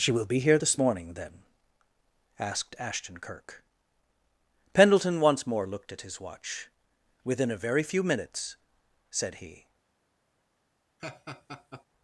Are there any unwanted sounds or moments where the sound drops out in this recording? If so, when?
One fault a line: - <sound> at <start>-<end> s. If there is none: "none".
- laugh at 11.0-11.8 s